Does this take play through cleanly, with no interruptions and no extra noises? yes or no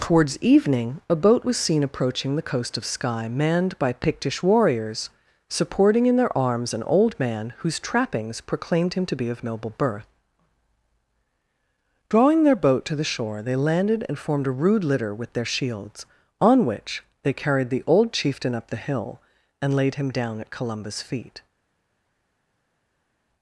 yes